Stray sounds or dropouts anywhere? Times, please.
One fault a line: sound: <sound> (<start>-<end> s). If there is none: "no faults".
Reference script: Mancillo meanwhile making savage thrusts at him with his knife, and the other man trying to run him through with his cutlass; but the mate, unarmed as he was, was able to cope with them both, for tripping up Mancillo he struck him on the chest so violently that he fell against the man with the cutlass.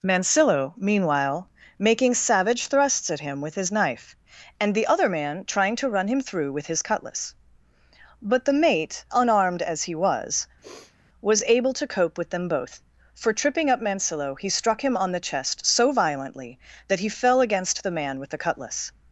sound: sniff (10.6-11.0 s)